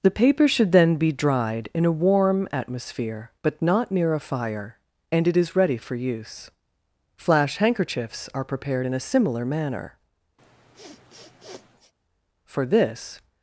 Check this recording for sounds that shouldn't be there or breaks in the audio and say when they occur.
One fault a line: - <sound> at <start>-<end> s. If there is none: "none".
- sniff at 10.4-11.9 s